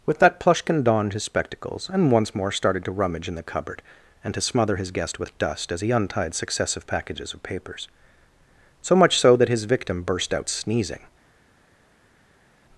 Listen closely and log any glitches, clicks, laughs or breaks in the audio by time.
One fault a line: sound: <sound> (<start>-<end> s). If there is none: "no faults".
no faults